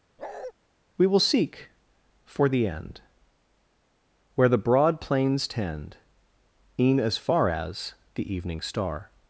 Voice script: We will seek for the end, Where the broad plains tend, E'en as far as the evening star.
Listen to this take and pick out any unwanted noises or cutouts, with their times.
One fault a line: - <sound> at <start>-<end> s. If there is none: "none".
- bark at 0.2-0.5 s